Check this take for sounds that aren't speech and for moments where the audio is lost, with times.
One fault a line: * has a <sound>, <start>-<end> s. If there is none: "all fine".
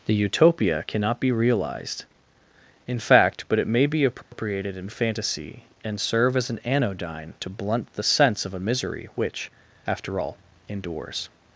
* has a dropout, 4.2-4.3 s